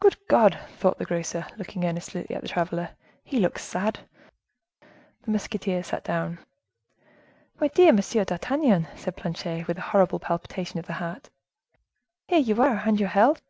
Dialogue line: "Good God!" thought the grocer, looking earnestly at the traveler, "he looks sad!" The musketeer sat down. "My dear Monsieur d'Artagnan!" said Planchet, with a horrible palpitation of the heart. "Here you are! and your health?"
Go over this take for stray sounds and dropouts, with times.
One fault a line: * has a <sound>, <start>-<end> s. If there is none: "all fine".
all fine